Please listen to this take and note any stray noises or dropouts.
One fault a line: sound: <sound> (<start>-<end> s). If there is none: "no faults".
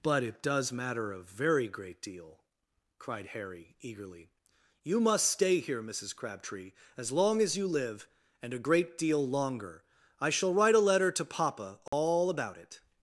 sound: dropout (11.9-11.9 s)